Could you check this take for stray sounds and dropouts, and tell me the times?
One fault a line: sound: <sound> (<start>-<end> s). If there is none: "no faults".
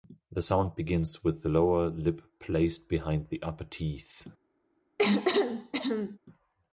sound: cough (5.0-6.2 s)